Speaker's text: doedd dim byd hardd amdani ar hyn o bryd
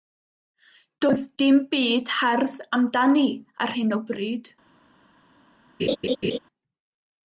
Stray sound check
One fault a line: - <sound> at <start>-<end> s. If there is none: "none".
- laugh at 5.8-6.4 s